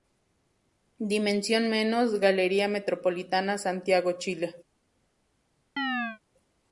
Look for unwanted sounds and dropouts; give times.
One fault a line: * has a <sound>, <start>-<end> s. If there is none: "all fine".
* has a chirp, 5.8-6.2 s